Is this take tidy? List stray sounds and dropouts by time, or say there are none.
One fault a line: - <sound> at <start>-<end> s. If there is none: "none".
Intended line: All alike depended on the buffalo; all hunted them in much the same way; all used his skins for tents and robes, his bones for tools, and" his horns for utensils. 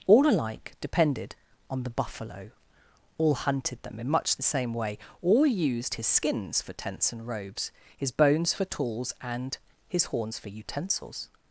none